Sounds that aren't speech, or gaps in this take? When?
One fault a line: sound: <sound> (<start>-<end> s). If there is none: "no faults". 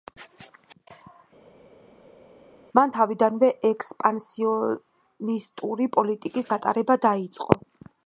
no faults